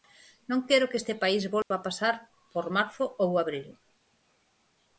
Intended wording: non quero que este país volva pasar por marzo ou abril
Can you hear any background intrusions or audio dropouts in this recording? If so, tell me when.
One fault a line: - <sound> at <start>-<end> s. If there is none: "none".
- dropout at 1.6-1.7 s